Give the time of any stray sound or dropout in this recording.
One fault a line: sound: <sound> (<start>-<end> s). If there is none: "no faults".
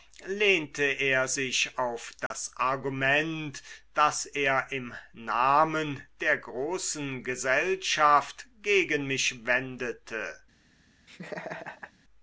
sound: dropout (2.3-2.3 s)
sound: laugh (11.1-11.9 s)